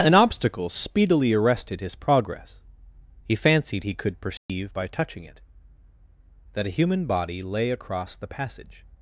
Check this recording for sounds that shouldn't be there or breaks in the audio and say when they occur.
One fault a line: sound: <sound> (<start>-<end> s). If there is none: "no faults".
sound: dropout (4.4-4.5 s)